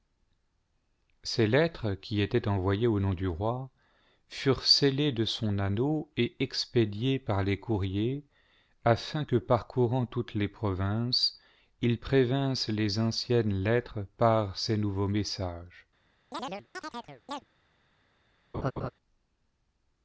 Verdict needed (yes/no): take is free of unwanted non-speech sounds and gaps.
no